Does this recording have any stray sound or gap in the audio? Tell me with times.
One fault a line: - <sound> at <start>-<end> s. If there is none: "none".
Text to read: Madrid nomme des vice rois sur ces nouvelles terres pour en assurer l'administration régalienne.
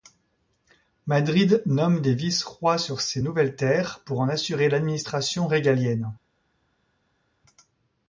none